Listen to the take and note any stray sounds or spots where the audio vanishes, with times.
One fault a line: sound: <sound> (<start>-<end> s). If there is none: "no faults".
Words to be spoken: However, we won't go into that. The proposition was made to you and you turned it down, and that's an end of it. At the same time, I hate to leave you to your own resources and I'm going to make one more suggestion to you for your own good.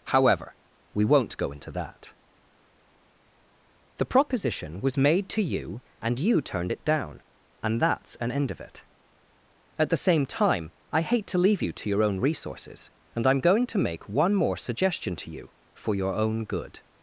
no faults